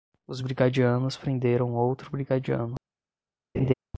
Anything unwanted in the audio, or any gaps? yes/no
yes